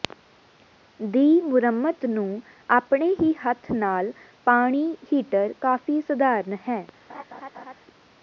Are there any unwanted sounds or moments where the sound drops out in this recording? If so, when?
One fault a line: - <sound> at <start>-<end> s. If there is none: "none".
- laugh at 7.1-7.7 s